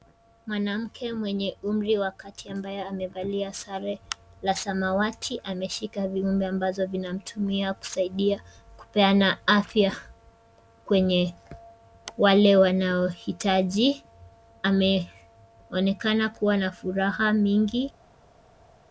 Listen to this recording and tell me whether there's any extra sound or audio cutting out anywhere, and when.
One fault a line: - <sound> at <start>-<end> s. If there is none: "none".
none